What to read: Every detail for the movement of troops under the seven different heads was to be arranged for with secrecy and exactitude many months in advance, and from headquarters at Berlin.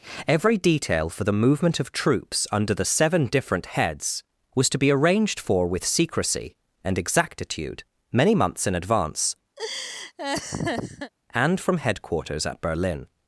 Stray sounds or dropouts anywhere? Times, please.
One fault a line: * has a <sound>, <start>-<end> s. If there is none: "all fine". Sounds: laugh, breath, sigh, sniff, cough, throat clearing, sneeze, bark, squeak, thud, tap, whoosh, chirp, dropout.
* has a laugh, 9.6-11.1 s